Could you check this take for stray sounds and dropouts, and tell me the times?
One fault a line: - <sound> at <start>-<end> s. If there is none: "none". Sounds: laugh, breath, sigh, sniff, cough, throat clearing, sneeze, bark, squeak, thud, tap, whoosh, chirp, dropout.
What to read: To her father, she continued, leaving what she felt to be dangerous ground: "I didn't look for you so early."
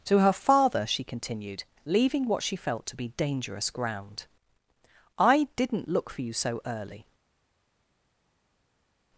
none